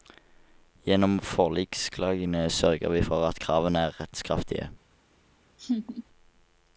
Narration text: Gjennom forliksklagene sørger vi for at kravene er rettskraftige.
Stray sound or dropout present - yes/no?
yes